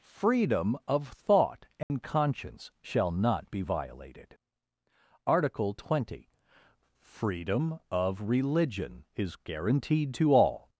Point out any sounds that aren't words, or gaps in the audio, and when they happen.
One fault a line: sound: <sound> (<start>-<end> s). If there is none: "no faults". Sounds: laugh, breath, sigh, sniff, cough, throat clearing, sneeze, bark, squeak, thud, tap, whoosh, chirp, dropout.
sound: dropout (1.8-1.9 s)